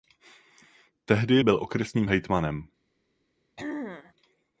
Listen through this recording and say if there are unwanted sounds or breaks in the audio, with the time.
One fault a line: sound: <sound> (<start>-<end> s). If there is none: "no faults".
sound: throat clearing (3.6-4.1 s)